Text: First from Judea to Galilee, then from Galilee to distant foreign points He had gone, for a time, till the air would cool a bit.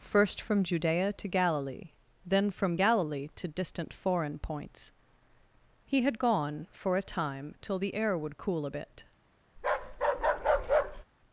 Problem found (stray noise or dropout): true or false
true